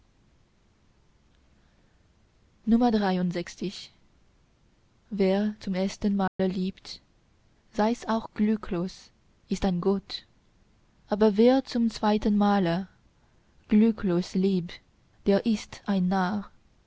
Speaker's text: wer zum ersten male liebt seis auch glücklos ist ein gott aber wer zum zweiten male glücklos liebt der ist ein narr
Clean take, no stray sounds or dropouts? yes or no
no